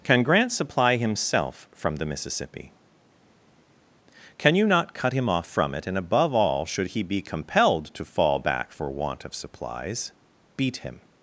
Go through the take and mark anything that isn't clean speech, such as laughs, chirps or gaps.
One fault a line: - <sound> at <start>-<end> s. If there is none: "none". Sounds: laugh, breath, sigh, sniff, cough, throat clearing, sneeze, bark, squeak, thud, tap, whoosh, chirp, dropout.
none